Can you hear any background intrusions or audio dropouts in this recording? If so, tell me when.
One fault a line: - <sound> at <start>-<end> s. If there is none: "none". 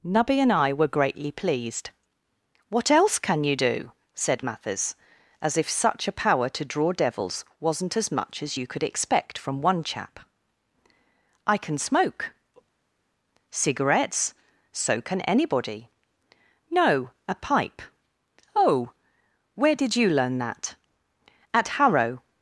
none